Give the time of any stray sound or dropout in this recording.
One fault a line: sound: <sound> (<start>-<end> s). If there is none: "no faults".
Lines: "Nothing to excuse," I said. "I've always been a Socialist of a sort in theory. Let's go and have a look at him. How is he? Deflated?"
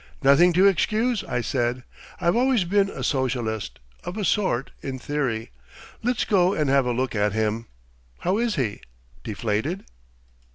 no faults